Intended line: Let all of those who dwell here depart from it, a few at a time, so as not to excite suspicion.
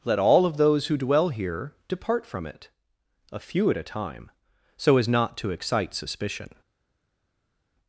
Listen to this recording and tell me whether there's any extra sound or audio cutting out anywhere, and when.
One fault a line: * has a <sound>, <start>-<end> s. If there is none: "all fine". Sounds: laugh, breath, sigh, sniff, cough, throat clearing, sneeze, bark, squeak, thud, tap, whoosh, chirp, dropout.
all fine